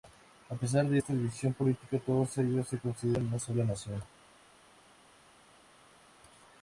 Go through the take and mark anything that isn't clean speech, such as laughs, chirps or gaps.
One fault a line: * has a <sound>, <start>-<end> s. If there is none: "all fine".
all fine